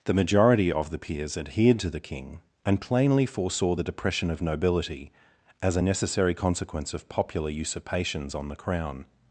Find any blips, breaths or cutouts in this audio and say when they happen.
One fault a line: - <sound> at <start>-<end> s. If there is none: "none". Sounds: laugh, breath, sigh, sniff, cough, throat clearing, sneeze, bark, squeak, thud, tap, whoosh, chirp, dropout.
none